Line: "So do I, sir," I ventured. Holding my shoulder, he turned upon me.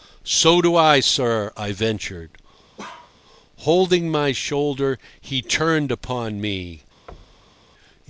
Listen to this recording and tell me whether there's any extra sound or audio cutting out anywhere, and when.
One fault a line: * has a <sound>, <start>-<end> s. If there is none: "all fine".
* has a bark, 2.8-3.1 s
* has a thud, 7.1-7.7 s